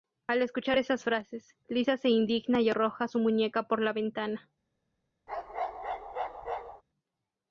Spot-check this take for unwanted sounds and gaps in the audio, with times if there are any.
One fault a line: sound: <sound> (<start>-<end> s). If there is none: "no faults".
sound: bark (5.3-6.8 s)